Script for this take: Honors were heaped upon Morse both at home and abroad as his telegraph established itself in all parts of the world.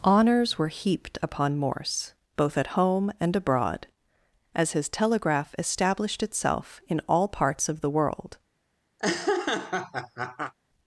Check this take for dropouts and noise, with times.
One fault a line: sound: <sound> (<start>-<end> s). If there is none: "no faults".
sound: laugh (9.0-10.5 s)